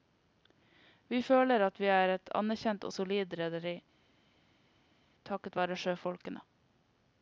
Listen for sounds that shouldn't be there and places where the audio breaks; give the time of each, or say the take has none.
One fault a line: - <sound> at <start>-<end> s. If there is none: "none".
none